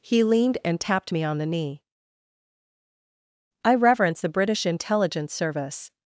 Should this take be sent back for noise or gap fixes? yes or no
no